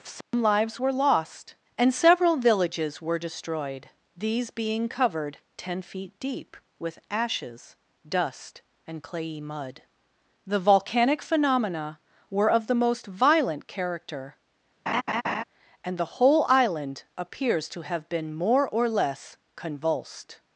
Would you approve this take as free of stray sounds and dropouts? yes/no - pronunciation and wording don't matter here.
no